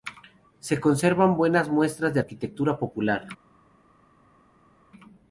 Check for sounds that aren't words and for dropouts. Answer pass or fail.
pass